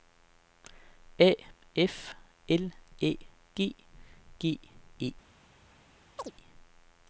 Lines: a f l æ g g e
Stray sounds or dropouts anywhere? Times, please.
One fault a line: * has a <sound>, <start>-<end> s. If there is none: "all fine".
* has a chirp, 6.2-6.3 s